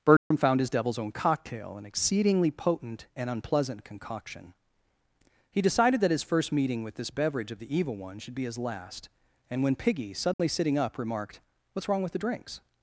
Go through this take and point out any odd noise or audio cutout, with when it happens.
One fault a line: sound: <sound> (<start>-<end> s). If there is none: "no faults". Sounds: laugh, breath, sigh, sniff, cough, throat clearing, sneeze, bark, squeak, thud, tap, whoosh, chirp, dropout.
sound: dropout (0.2-0.3 s)
sound: dropout (10.3-10.4 s)